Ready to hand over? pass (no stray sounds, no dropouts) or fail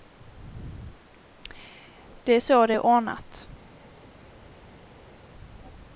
pass